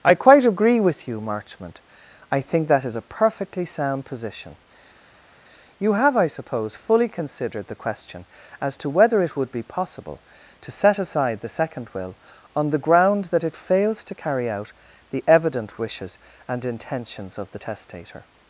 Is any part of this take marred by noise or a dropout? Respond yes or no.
no